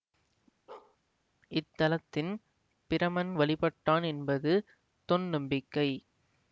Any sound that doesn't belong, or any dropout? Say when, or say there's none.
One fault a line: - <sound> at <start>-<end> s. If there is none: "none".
- bark at 0.7-1.0 s